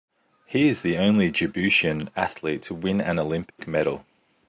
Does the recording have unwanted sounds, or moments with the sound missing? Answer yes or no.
yes